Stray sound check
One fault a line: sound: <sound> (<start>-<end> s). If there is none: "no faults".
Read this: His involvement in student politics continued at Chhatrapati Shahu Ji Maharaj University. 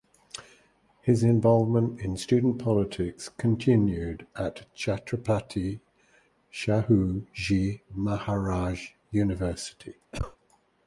sound: cough (10.1-10.4 s)